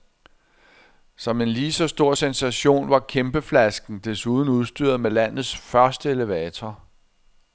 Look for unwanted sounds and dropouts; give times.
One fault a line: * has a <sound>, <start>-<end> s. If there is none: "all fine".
all fine